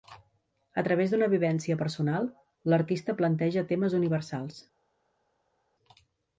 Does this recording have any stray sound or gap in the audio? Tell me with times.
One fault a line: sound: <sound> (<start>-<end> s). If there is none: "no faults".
no faults